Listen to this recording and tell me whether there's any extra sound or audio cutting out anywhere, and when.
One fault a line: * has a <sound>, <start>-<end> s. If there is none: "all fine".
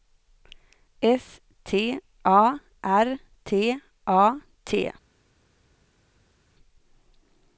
all fine